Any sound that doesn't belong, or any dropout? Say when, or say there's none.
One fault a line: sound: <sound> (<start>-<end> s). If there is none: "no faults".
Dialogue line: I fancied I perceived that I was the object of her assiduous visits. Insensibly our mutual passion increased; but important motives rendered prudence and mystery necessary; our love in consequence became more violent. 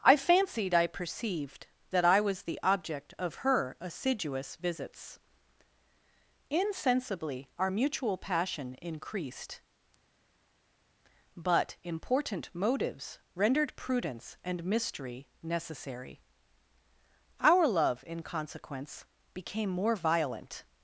no faults